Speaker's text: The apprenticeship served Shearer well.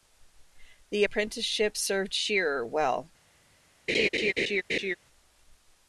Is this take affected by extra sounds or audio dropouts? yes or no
yes